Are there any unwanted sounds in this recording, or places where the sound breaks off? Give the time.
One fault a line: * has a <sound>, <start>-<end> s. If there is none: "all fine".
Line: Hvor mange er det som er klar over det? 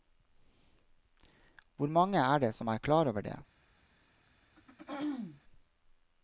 * has a throat clearing, 4.6-5.4 s